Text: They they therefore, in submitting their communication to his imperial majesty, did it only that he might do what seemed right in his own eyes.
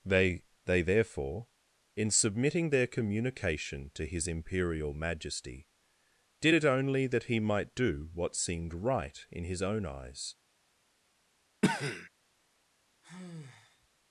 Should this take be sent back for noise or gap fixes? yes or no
yes